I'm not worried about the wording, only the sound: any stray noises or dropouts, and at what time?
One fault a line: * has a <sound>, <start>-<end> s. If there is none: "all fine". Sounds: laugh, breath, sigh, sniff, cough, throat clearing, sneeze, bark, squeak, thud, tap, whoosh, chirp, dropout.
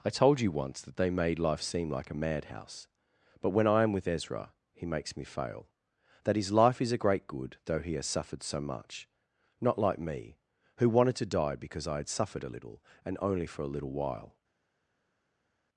all fine